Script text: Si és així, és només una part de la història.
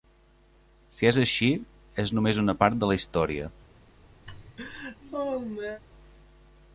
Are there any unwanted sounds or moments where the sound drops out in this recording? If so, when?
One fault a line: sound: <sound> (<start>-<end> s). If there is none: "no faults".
sound: laugh (4.3-5.8 s)